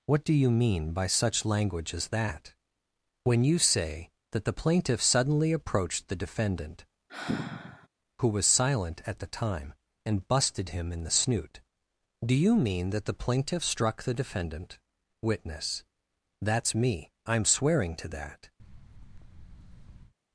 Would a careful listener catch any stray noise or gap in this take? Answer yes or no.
yes